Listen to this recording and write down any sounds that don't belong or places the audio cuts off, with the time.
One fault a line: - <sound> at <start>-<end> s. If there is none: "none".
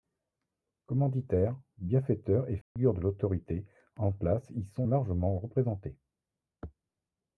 - dropout at 2.6-2.8 s